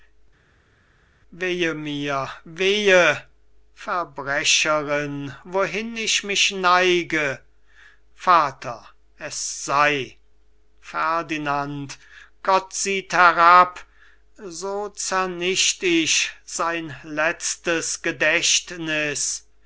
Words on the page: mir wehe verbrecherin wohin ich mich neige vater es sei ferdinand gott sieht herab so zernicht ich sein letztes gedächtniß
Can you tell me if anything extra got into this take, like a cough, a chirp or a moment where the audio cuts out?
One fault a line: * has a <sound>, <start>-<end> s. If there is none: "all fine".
all fine